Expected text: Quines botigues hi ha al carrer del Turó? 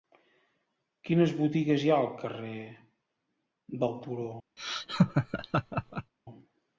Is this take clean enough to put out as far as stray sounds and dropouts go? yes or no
no